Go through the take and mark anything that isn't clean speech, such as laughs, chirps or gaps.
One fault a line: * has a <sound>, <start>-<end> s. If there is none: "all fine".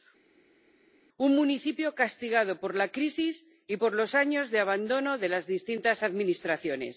all fine